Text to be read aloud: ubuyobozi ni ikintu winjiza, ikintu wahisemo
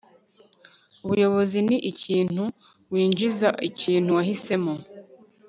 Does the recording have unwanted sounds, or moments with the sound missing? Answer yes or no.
no